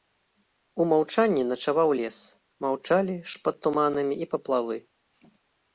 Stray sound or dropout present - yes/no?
no